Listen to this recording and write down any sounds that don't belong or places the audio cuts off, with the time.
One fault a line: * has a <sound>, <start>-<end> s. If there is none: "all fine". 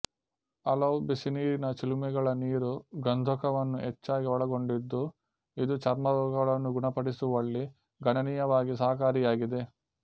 all fine